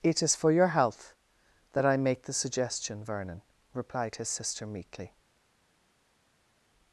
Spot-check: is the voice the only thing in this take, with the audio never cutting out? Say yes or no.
yes